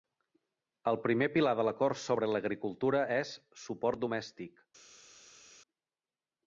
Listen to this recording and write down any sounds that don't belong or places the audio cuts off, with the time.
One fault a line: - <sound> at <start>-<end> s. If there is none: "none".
none